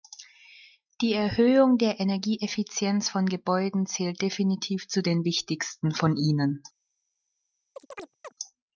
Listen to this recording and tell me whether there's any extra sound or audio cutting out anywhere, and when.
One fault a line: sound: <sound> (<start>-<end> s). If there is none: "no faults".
sound: chirp (7.8-8.3 s)